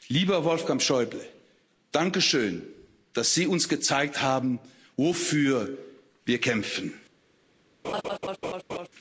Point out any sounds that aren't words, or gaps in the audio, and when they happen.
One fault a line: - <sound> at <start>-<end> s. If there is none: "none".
- laugh at 7.8-8.9 s